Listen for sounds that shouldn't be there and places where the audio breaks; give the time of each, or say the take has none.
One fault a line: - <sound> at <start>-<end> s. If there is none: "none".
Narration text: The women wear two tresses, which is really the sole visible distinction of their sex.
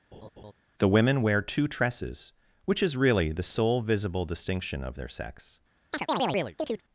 - laugh at 0.1-0.5 s
- chirp at 5.9-6.8 s